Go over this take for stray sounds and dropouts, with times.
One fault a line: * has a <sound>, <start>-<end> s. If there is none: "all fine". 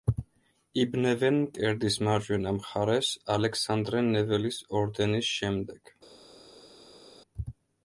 all fine